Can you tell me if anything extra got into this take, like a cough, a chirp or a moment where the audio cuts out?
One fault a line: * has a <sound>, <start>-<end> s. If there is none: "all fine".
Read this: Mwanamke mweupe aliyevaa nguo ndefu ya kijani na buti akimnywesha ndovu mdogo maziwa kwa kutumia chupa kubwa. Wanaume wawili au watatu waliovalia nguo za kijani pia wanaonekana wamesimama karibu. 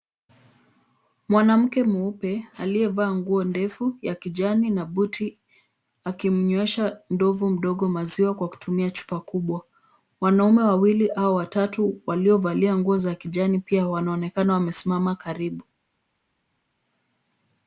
all fine